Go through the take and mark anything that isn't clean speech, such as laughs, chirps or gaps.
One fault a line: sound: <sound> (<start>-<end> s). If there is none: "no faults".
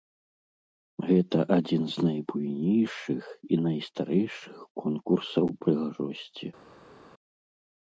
no faults